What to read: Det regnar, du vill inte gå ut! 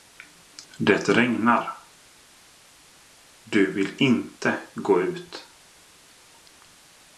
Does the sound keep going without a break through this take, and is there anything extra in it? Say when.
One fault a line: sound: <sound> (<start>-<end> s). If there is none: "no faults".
no faults